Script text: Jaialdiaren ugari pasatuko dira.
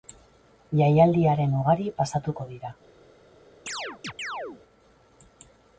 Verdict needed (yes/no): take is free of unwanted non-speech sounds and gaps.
no